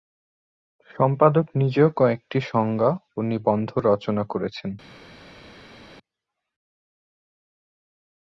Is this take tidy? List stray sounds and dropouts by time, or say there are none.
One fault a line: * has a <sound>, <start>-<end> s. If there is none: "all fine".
all fine